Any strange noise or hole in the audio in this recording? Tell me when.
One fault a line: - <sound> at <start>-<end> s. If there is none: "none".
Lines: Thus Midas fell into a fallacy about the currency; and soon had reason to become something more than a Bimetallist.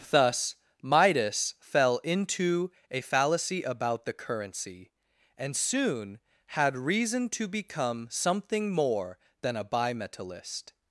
none